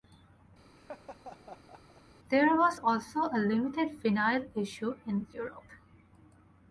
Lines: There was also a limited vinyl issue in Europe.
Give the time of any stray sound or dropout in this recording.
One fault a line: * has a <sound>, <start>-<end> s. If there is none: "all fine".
* has a laugh, 0.8-2.0 s